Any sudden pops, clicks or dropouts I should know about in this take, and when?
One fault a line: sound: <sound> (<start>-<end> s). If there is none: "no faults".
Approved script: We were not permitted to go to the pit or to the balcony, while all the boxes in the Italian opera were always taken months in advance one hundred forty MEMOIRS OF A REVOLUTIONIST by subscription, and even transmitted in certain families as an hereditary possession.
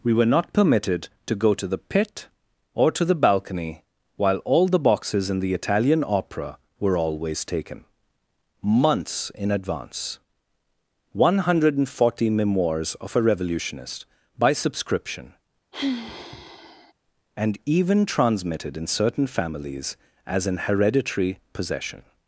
sound: sigh (15.7-16.9 s)